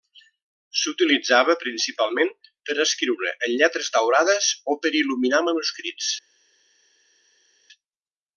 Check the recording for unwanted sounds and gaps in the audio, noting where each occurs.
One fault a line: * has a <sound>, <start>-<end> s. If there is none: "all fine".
all fine